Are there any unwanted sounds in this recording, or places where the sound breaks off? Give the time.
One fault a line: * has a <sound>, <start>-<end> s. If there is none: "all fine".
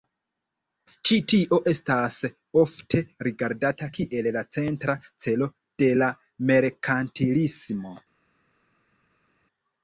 all fine